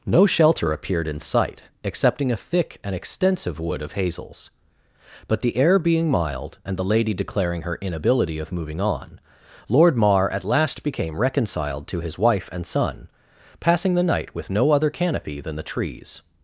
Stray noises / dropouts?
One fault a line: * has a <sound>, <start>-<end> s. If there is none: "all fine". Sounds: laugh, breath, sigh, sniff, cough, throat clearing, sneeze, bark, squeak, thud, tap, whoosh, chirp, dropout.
all fine